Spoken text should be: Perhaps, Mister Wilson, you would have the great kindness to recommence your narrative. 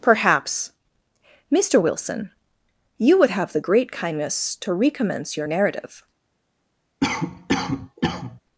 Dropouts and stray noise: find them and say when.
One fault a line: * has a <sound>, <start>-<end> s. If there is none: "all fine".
* has a cough, 7.0-8.4 s